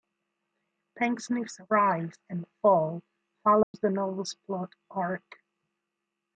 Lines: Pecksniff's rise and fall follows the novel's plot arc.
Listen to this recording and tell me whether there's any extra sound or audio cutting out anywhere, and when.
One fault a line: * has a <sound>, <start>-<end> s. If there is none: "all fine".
* has a dropout, 3.6-3.7 s